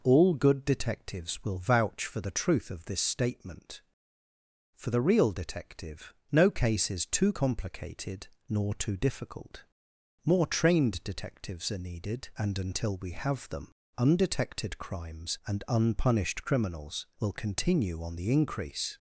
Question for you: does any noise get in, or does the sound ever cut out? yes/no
no